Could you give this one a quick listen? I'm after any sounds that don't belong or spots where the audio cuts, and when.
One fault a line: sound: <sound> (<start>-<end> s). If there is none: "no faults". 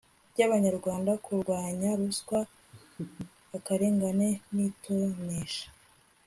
sound: laugh (2.7-3.3 s)